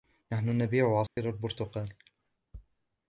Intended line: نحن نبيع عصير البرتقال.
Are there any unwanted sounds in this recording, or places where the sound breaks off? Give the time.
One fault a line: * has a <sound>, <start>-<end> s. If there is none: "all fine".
* has a dropout, 1.1-1.2 s